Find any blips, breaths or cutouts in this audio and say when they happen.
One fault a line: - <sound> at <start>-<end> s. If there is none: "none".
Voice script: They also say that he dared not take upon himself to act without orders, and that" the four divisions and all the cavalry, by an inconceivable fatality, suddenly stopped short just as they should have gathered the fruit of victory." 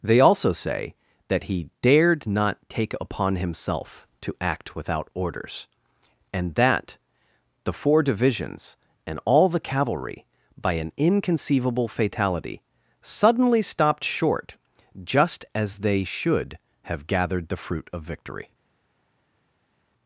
none